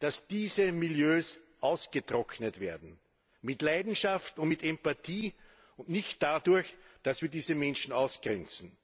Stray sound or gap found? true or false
false